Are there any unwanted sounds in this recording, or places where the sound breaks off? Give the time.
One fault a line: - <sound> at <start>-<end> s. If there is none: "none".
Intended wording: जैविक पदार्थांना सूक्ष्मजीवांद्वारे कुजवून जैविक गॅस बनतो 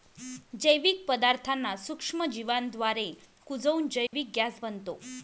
- dropout at 4.1-4.1 s